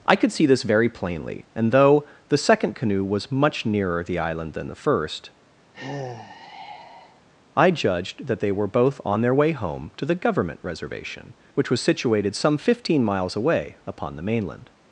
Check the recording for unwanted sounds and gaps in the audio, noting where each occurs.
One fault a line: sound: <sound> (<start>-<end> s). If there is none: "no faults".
sound: sigh (5.7-7.2 s)